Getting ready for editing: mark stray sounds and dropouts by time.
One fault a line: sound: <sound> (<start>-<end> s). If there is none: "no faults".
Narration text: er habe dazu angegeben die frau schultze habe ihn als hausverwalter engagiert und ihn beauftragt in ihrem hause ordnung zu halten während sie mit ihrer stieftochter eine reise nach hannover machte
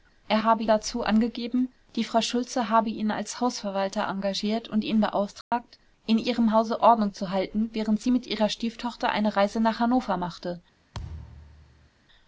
sound: dropout (5.4-5.5 s)
sound: thud (10.9-11.9 s)